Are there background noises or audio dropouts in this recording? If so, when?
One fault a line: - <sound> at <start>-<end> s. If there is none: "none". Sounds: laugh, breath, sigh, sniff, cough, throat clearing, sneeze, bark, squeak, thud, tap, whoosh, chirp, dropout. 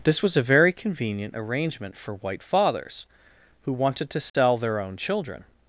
- dropout at 4.3-4.3 s